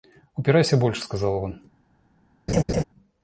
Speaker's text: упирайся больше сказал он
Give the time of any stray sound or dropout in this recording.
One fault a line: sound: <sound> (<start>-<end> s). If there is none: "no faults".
sound: laugh (2.5-2.8 s)